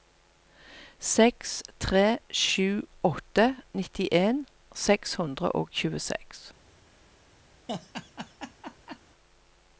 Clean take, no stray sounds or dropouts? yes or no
no